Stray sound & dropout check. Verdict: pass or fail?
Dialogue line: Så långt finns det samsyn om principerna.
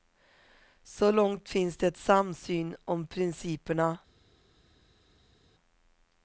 pass